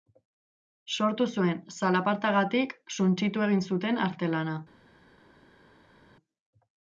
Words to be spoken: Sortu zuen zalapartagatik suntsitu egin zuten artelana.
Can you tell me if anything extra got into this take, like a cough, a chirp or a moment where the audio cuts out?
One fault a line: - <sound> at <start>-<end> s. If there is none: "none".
none